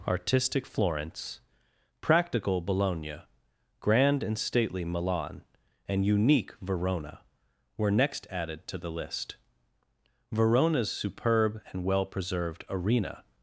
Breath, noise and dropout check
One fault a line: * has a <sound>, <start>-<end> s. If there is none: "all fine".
all fine